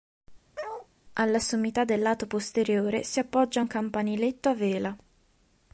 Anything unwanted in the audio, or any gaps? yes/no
yes